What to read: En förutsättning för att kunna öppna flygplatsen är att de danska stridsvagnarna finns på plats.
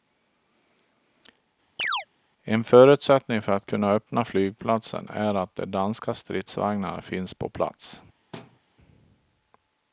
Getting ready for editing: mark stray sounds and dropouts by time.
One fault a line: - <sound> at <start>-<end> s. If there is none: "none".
- chirp at 1.8-2.1 s
- thud at 8.3-8.6 s